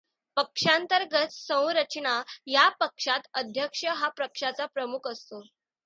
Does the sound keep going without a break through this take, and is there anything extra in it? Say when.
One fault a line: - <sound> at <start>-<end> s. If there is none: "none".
none